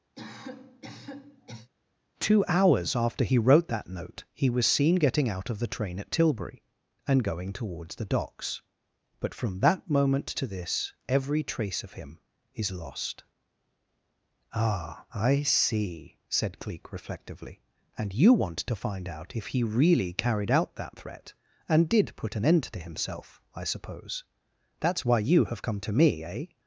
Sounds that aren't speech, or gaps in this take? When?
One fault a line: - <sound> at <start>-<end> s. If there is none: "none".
- cough at 0.2-1.7 s